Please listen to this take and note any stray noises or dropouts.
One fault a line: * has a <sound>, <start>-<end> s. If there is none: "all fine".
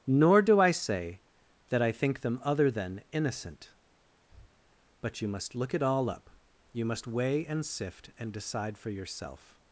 * has a breath, 4.3-4.5 s